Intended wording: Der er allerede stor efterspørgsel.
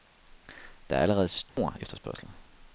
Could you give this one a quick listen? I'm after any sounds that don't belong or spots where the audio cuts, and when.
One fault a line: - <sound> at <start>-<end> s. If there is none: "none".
- dropout at 1.5-1.6 s